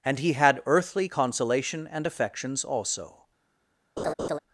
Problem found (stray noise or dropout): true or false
true